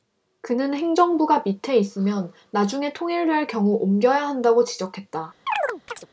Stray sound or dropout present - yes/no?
yes